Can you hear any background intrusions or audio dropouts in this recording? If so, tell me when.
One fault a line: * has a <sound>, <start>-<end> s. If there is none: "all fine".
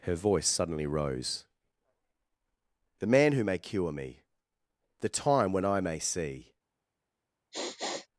* has a sniff, 7.5-8.1 s